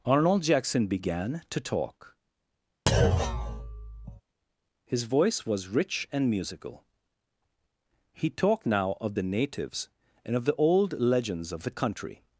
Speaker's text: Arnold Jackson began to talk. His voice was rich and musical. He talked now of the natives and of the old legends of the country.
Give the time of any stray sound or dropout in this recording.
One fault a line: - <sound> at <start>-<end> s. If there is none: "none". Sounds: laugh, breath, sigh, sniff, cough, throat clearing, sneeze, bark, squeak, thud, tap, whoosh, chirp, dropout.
- thud at 2.9-4.2 s